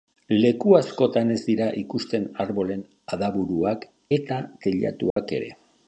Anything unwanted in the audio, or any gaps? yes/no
yes